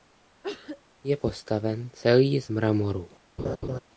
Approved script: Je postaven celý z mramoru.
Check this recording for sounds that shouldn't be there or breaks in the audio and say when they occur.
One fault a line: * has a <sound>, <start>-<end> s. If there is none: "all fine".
* has a cough, 0.4-0.8 s
* has a laugh, 3.4-3.8 s